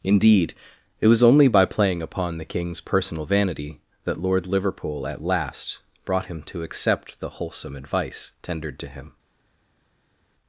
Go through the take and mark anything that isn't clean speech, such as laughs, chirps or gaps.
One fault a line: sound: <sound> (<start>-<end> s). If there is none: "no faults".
no faults